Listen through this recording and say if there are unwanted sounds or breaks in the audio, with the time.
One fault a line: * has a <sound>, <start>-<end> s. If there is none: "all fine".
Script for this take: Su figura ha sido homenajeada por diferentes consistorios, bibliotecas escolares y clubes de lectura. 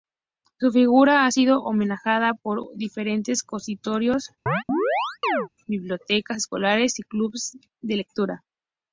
* has a chirp, 4.5-5.5 s